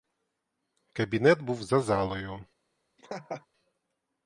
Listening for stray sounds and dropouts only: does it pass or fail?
fail